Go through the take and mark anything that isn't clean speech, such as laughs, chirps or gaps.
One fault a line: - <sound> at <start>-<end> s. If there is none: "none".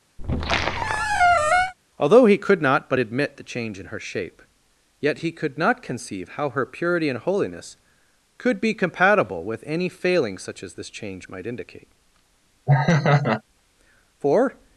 - squeak at 0.2-1.7 s
- laugh at 12.7-13.4 s